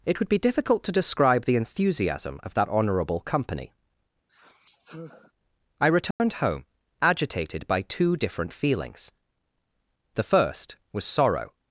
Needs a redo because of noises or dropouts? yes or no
yes